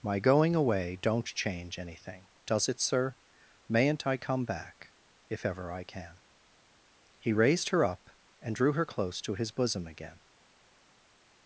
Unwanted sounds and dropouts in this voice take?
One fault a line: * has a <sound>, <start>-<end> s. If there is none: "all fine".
all fine